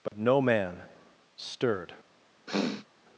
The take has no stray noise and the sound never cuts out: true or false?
false